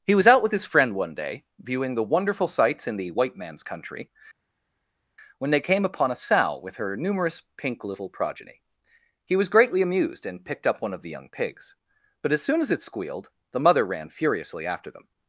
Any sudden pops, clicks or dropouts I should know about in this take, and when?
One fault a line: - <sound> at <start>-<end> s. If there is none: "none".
none